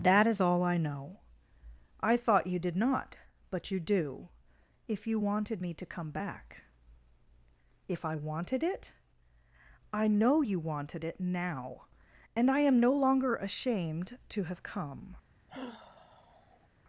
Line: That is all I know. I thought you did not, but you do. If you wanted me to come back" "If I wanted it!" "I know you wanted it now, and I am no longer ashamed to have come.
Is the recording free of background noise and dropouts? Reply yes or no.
no